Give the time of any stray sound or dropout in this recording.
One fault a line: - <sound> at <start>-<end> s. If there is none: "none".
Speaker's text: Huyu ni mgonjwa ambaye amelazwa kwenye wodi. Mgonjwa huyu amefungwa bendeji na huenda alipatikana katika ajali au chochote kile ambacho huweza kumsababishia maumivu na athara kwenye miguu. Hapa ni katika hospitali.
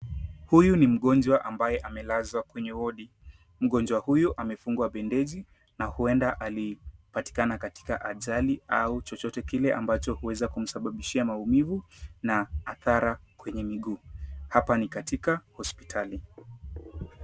none